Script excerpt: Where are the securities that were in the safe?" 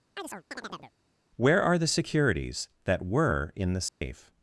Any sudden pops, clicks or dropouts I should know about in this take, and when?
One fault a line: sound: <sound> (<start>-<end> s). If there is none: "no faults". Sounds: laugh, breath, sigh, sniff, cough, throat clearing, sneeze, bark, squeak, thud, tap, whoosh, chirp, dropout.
sound: chirp (0.2-0.9 s)
sound: dropout (3.9-4.0 s)